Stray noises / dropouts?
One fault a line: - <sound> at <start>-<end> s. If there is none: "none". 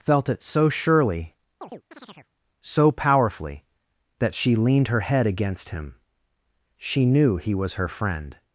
- chirp at 1.6-2.3 s